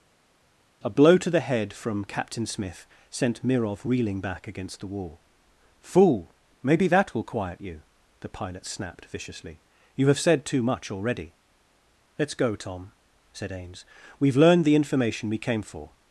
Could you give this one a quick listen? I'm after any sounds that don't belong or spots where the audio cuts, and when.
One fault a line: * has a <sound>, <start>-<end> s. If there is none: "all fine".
all fine